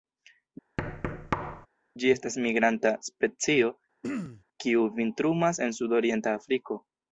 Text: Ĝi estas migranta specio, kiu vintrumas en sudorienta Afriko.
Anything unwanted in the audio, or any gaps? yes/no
yes